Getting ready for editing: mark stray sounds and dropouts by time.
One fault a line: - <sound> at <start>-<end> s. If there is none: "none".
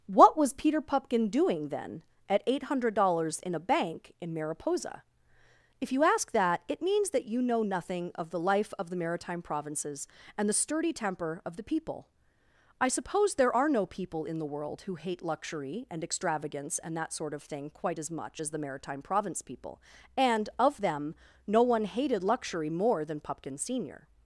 none